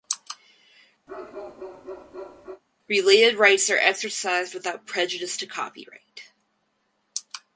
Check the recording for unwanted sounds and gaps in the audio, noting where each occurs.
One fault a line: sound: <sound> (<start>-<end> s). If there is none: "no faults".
sound: bark (1.1-2.6 s)